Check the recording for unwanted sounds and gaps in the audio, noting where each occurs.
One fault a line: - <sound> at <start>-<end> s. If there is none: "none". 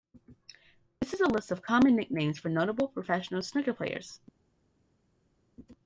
none